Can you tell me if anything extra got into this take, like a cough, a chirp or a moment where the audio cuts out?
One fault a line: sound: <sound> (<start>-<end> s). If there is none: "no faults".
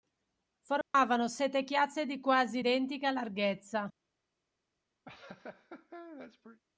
sound: dropout (0.8-0.9 s)
sound: laugh (5.1-6.6 s)